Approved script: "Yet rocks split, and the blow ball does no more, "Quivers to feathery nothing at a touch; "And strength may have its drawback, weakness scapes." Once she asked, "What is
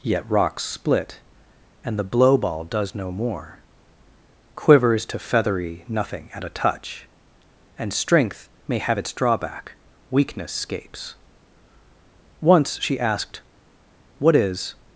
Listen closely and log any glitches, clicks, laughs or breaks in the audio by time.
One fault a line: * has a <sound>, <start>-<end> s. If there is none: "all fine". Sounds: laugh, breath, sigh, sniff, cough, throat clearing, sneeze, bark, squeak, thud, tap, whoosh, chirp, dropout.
all fine